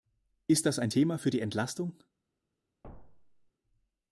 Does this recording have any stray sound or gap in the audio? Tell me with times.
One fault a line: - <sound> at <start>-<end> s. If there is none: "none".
- thud at 2.8-3.5 s